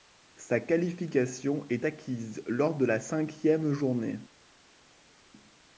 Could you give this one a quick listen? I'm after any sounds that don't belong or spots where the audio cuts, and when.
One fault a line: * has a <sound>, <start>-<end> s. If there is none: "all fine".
all fine